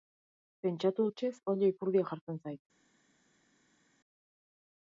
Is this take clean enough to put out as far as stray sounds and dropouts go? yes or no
yes